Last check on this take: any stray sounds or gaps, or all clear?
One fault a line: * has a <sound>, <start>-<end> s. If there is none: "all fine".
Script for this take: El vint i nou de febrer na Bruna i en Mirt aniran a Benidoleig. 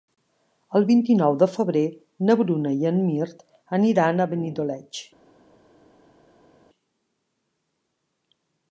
all fine